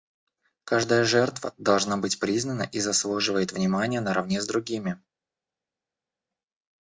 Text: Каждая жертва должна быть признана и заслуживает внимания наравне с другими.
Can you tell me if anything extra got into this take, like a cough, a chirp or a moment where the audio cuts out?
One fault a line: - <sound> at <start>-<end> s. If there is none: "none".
none